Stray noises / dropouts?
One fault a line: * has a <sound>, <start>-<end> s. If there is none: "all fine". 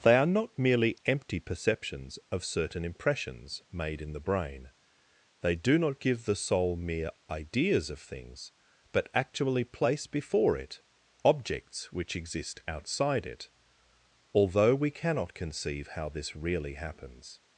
all fine